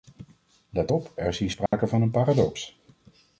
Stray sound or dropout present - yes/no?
yes